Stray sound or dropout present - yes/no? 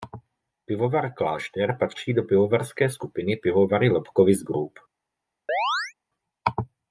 yes